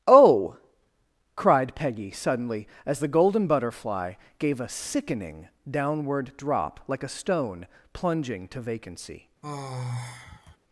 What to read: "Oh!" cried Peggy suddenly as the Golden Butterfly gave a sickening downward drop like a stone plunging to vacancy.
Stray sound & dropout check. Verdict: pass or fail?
fail